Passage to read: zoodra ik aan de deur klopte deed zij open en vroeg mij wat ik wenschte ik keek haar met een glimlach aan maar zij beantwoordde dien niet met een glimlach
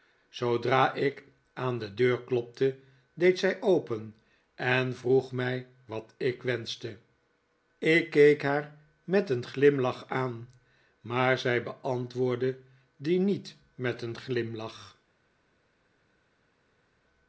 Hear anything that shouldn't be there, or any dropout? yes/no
no